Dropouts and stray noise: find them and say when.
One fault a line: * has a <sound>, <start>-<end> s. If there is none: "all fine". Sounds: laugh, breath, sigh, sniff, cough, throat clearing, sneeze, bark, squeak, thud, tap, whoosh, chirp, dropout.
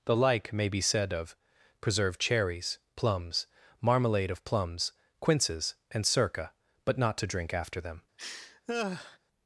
* has a laugh, 8.2-9.2 s